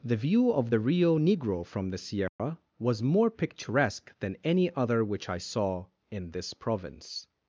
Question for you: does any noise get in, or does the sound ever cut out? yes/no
yes